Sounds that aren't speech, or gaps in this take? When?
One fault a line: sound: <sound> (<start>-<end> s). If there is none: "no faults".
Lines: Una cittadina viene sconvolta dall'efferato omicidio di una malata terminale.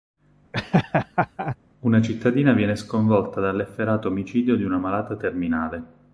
sound: laugh (0.5-1.6 s)